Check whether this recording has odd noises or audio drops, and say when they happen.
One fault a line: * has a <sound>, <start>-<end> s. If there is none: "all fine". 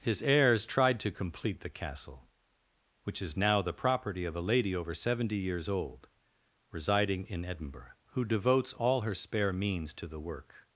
all fine